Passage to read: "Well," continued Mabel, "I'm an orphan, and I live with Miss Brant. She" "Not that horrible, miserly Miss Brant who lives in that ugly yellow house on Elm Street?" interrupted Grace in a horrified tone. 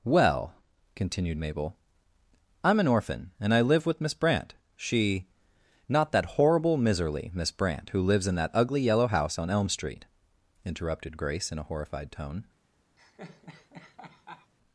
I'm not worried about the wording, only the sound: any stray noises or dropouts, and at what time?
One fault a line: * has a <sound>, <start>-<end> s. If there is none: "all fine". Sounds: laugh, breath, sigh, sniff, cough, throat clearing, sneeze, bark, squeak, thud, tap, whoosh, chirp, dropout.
* has a laugh, 13.0-14.5 s